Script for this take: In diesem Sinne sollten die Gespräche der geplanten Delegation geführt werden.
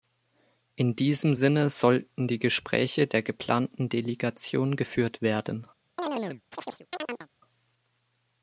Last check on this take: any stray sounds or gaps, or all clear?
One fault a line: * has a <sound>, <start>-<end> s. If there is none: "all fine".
* has a chirp, 6.0-7.3 s